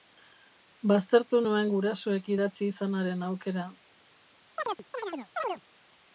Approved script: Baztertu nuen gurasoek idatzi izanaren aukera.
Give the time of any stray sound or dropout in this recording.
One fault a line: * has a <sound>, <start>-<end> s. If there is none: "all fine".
* has a chirp, 4.6-5.6 s